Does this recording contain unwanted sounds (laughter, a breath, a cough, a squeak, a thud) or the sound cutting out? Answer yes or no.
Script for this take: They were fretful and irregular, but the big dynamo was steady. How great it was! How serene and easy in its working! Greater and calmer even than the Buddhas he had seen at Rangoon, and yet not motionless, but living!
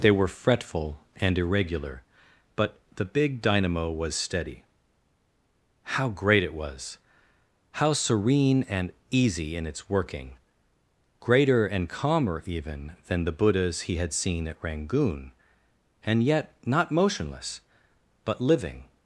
no